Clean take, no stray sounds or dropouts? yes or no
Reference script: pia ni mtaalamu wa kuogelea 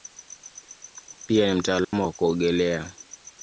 no